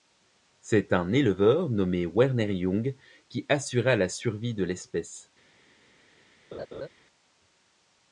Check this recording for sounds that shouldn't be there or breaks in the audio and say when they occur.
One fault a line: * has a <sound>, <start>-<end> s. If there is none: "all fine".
* has a laugh, 6.5-6.9 s